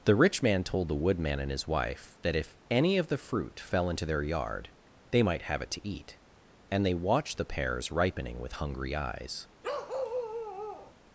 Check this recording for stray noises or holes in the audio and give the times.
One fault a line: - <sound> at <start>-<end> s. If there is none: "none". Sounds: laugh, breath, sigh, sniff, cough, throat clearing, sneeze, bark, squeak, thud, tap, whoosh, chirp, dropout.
- bark at 9.6-10.9 s